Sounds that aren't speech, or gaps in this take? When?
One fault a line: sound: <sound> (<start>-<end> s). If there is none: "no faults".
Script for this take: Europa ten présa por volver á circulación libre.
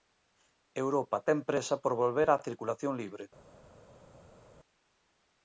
no faults